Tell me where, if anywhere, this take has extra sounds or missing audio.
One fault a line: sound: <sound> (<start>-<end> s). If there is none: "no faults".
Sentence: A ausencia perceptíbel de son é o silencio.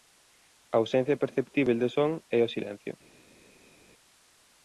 no faults